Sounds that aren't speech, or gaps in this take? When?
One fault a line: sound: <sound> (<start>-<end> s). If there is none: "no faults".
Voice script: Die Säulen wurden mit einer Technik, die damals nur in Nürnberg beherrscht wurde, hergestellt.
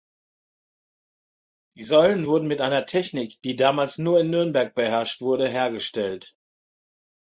no faults